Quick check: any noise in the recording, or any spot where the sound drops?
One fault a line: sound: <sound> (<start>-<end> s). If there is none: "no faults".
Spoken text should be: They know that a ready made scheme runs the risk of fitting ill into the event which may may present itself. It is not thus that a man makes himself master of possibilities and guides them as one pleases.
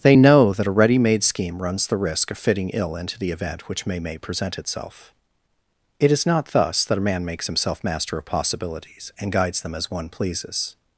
no faults